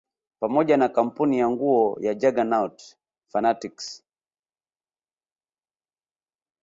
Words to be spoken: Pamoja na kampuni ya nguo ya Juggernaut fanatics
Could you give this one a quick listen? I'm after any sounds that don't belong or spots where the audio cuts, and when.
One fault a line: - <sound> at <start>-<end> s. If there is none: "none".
none